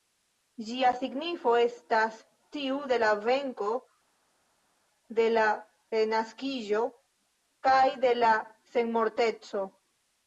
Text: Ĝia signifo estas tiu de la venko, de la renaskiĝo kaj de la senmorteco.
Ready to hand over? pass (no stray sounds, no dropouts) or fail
pass